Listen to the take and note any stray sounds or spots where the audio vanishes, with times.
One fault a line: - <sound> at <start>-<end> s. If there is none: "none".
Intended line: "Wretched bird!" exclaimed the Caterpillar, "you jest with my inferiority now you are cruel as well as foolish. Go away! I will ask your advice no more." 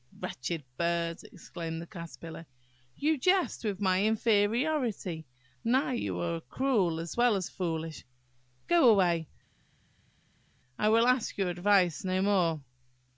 none